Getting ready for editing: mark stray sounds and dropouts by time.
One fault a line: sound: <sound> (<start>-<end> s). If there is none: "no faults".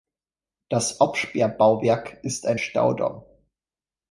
no faults